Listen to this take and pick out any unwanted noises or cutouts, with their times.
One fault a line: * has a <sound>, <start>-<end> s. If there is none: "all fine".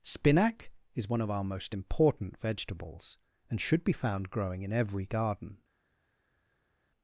all fine